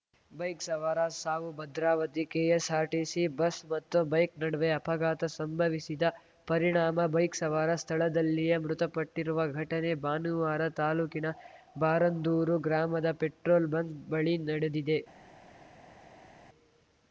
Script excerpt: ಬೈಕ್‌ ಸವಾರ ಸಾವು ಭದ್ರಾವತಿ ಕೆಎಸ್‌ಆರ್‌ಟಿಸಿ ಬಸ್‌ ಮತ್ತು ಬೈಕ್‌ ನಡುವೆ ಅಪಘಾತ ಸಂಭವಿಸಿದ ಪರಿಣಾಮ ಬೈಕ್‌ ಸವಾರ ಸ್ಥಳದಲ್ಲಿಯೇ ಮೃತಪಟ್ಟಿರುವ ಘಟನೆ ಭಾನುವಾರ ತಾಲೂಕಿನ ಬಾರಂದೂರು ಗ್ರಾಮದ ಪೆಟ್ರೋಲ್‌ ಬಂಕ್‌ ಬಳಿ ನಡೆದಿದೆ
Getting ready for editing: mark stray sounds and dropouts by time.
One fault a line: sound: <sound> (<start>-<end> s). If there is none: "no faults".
no faults